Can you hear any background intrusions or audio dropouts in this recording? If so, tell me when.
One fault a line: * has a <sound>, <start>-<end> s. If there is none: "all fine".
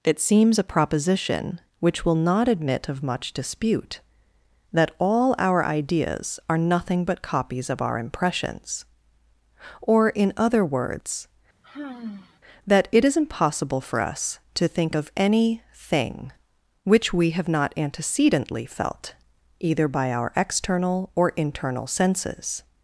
* has a sigh, 11.6-12.4 s